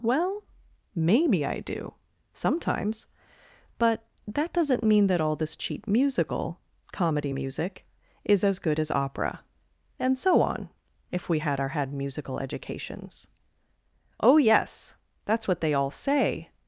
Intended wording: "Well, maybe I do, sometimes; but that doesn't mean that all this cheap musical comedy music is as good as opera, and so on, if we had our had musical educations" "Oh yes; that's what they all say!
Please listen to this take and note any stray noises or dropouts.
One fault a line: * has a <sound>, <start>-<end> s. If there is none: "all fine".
all fine